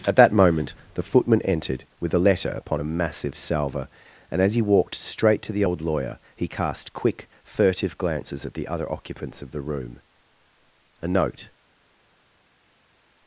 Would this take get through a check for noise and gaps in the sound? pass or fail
pass